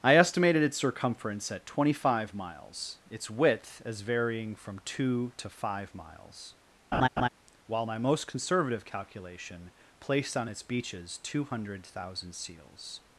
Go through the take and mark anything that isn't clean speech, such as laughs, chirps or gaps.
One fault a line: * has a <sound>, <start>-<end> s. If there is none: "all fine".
* has a laugh, 6.9-7.3 s